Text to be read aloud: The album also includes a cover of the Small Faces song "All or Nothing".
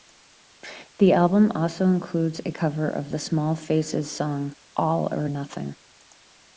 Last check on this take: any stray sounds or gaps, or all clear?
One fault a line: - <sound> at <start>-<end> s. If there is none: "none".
none